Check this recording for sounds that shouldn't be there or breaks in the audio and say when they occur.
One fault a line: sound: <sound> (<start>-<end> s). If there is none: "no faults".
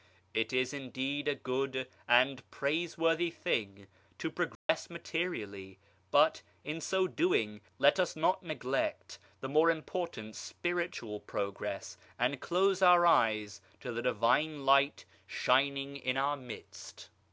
sound: dropout (4.5-4.7 s)